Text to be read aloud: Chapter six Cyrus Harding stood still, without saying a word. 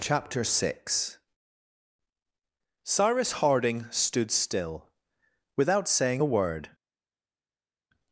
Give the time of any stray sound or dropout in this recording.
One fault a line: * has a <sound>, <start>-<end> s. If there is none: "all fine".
all fine